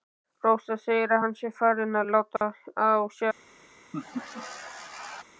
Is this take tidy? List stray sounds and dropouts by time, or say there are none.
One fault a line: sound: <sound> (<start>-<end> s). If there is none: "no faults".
sound: dropout (2.4-2.4 s)
sound: laugh (3.9-5.2 s)